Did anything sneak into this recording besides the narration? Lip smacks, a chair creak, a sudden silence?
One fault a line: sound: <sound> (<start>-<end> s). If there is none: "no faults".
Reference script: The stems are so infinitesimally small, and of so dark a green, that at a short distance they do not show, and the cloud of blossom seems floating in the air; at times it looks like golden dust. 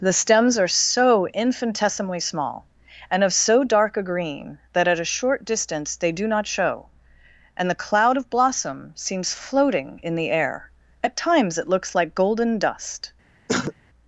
sound: throat clearing (13.5-13.7 s)